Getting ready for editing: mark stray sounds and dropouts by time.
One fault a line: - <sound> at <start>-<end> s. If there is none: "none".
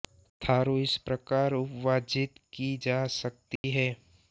- dropout at 3.6-3.6 s